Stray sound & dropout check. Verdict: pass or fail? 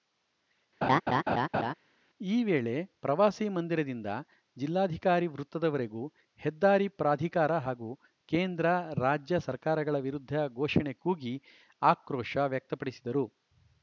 fail